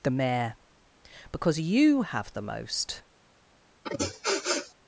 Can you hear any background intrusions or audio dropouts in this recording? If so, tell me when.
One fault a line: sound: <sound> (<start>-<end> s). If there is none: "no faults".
sound: sniff (3.8-4.7 s)